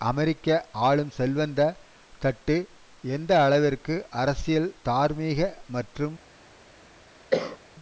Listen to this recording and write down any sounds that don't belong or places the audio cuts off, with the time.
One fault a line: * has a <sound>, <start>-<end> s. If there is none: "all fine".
* has a cough, 7.3-7.6 s